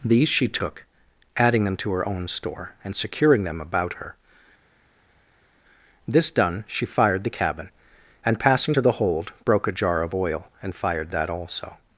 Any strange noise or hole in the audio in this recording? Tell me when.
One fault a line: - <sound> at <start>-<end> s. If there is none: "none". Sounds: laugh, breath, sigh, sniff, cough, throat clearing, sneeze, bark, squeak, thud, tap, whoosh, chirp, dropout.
none